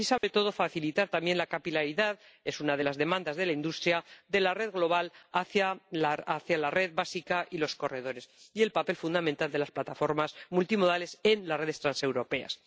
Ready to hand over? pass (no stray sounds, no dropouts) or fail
fail